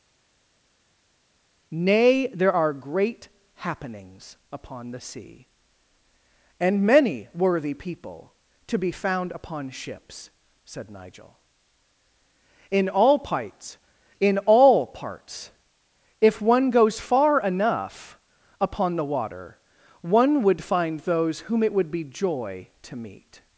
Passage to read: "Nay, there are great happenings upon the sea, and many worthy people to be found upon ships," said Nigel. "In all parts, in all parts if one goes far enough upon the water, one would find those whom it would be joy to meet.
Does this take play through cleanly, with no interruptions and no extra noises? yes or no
yes